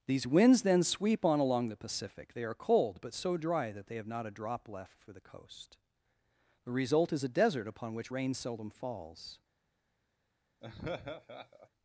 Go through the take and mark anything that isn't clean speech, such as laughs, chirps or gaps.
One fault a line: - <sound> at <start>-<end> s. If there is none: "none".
- laugh at 10.6-11.7 s